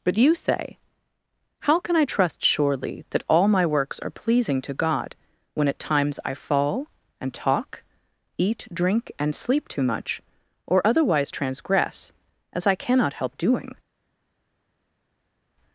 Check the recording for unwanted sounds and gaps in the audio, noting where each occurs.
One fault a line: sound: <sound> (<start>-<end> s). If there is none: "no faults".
no faults